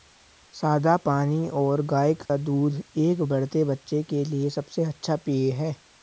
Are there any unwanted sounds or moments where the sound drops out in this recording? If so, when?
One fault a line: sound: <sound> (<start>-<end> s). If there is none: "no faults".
sound: dropout (2.3-2.3 s)